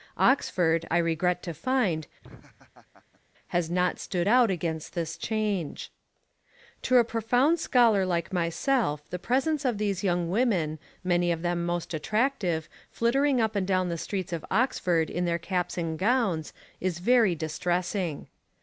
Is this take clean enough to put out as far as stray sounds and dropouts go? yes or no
no